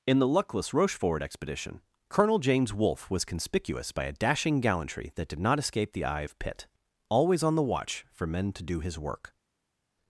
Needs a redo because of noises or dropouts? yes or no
no